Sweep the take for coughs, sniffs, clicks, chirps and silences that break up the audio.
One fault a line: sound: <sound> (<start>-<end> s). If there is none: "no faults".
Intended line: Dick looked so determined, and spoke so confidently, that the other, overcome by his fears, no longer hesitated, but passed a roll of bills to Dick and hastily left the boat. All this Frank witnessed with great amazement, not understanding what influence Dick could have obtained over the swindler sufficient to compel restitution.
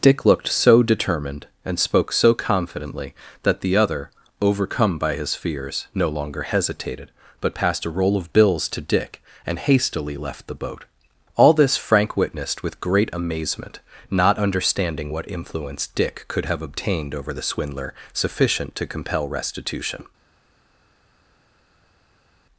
no faults